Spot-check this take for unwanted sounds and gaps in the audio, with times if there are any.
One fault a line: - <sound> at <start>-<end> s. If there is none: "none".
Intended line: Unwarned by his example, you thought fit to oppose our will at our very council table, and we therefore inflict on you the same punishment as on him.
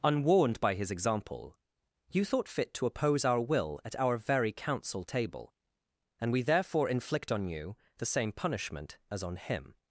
none